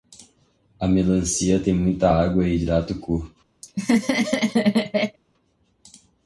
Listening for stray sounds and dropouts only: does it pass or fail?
fail